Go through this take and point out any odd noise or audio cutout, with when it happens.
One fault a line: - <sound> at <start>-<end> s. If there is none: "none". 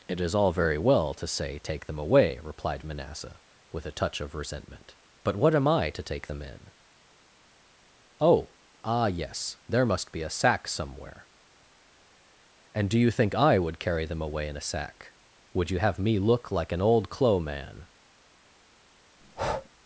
- breath at 19.2-19.7 s